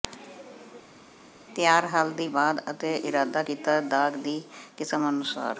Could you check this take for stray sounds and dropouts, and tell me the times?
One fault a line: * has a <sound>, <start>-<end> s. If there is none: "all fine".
all fine